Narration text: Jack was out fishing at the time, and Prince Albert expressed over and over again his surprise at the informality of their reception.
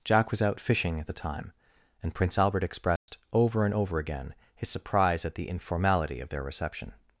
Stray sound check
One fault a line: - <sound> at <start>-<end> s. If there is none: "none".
- dropout at 3.0-3.1 s